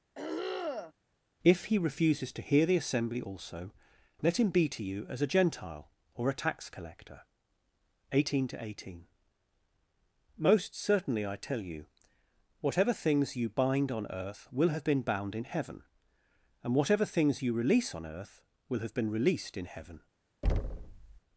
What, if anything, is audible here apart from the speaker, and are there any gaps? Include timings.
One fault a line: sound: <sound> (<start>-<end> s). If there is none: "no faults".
sound: throat clearing (0.1-0.9 s)
sound: thud (20.4-21.2 s)